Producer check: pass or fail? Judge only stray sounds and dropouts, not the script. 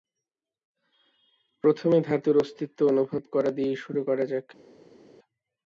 pass